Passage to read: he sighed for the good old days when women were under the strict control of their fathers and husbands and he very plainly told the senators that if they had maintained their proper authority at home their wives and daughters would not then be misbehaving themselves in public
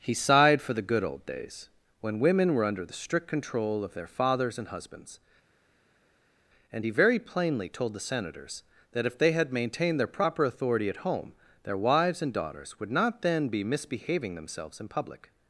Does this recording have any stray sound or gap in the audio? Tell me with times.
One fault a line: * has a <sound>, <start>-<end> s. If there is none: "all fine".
all fine